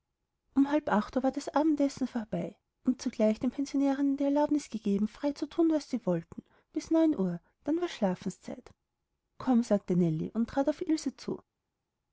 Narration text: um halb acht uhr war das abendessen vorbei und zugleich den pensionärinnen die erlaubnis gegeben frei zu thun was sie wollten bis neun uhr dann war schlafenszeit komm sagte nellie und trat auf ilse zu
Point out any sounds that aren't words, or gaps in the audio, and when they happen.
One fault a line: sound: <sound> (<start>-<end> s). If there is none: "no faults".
no faults